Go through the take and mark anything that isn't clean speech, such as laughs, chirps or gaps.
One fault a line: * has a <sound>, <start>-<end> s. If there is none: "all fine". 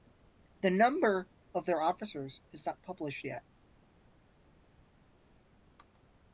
all fine